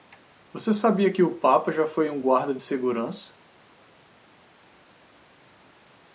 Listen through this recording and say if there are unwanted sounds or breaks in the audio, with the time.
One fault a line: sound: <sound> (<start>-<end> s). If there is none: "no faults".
no faults